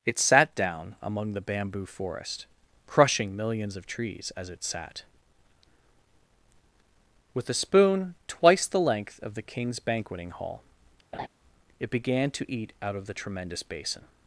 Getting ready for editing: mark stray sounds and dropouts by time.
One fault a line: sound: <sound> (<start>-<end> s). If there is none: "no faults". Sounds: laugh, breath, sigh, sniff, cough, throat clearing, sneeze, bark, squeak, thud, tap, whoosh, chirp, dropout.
sound: laugh (11.1-11.3 s)